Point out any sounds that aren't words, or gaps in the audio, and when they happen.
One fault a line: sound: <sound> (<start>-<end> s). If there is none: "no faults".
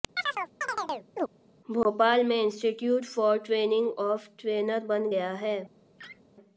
sound: chirp (0.2-1.3 s)
sound: laugh (6.0-6.2 s)